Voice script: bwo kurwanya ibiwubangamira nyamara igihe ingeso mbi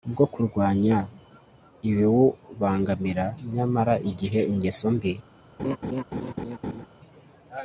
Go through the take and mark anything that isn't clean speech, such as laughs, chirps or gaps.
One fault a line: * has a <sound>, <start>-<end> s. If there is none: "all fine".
* has a laugh, 5.6-6.9 s